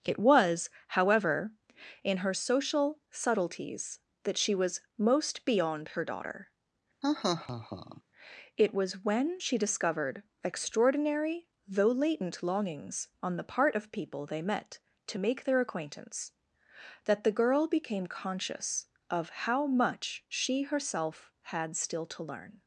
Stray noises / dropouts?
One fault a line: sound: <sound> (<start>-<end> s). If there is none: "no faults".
sound: laugh (7.0-8.0 s)